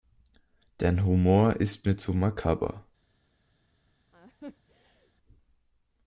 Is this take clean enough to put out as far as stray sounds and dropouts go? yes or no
no